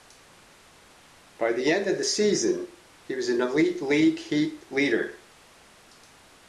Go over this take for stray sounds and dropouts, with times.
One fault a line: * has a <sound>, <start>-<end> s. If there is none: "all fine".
all fine